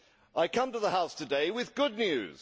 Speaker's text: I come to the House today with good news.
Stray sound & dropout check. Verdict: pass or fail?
pass